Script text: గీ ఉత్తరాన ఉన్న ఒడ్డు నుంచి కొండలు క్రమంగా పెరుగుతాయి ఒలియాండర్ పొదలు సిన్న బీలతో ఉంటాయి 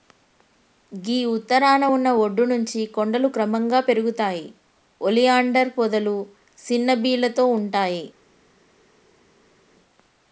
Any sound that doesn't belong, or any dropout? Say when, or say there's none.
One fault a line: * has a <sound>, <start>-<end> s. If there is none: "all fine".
all fine